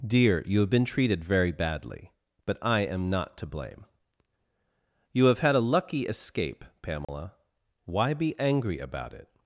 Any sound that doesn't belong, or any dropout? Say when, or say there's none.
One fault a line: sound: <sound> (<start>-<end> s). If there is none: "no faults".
sound: dropout (7.0-7.1 s)